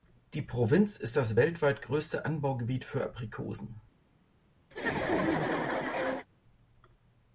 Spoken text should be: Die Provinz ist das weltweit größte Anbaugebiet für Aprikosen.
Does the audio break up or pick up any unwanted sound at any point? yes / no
yes